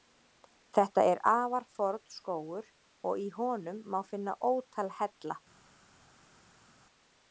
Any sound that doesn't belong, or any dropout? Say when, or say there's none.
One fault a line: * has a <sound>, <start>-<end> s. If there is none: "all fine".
all fine